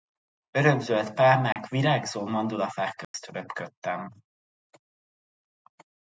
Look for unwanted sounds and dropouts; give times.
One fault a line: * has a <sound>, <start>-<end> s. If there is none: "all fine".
* has a dropout, 1.5-1.6 s
* has a dropout, 3.0-3.1 s